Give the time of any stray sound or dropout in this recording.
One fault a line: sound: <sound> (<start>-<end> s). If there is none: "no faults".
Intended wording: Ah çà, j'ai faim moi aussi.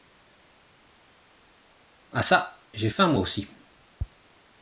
no faults